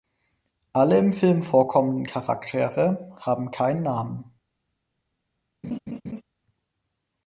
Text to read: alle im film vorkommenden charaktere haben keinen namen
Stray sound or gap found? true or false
true